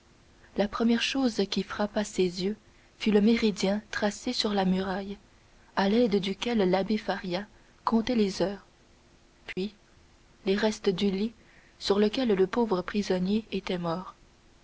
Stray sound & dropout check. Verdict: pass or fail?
fail